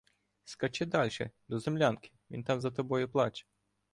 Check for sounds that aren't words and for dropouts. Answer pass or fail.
pass